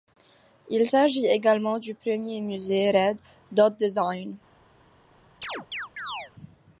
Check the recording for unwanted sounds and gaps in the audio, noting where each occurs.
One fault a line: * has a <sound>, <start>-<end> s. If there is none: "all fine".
* has a chirp, 5.4-6.3 s